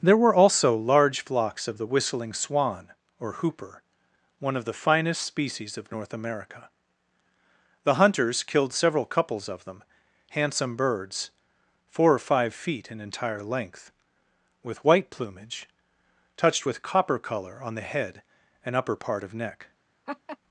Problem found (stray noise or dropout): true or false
true